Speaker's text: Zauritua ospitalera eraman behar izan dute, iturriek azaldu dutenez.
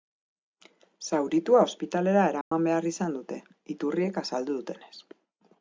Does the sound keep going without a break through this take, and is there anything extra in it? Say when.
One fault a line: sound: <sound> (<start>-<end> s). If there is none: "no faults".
sound: dropout (2.4-2.5 s)